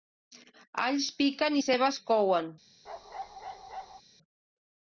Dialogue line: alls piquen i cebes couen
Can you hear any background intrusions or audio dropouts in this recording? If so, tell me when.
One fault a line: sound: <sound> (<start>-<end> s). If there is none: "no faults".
sound: bark (2.9-4.0 s)